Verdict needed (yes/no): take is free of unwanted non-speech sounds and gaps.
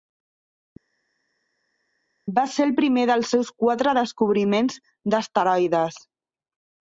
yes